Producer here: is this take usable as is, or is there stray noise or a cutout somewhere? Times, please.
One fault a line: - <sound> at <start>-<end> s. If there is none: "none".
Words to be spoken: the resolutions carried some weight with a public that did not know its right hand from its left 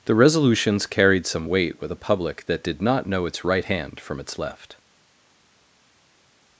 none